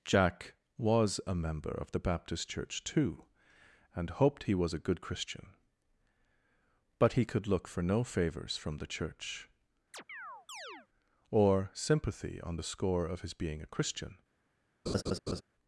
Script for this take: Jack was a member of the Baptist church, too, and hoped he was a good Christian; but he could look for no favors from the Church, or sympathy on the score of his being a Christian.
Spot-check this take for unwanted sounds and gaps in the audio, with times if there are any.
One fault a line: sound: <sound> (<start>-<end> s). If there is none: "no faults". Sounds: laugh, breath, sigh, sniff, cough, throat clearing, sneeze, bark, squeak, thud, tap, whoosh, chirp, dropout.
sound: chirp (9.9-10.9 s)
sound: laugh (14.9-15.4 s)